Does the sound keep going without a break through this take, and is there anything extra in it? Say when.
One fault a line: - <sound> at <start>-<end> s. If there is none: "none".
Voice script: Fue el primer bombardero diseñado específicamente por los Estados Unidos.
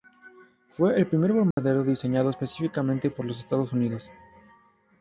- dropout at 1.5-1.6 s